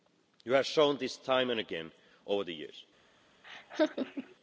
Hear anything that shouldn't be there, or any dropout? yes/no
yes